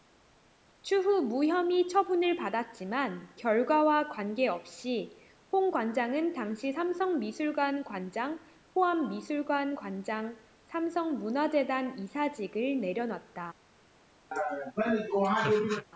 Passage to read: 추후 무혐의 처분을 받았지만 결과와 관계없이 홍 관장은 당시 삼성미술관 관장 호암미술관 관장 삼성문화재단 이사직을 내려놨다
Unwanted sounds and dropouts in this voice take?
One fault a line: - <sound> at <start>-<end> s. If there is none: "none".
- laugh at 14.3-15.9 s